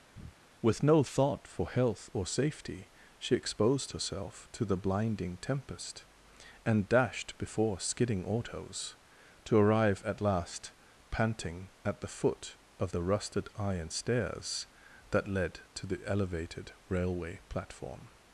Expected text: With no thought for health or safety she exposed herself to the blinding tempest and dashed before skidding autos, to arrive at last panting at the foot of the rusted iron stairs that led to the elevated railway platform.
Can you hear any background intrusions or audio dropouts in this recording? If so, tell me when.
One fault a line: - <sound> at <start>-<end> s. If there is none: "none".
- breath at 0.1-0.4 s